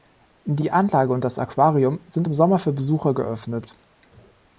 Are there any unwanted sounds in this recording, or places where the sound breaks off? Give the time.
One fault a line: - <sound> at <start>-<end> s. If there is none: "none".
none